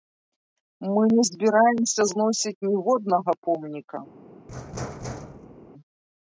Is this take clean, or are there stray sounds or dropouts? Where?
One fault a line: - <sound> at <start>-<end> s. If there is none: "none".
- thud at 4.5-5.7 s